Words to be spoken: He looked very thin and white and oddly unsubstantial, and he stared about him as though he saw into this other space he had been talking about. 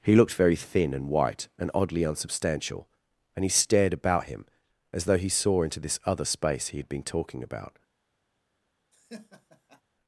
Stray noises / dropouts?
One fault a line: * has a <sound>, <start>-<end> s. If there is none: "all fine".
* has a laugh, 8.9-9.8 s